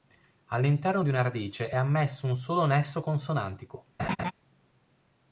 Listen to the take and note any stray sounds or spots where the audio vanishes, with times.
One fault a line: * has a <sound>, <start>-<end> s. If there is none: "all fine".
* has a laugh, 4.0-4.3 s